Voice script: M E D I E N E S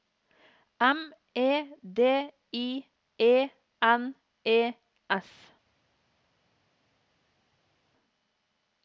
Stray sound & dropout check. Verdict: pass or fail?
pass